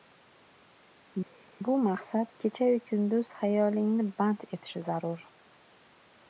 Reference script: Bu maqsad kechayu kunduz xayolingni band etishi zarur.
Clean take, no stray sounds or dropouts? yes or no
yes